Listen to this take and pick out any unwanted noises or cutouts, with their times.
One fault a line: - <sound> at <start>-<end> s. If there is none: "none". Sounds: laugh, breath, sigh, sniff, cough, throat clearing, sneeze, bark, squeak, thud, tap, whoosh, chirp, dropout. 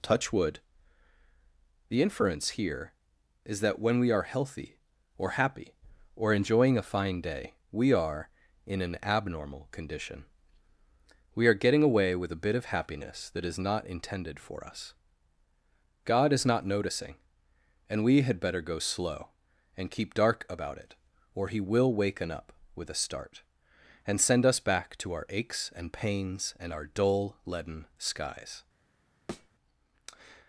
- thud at 29.3-29.5 s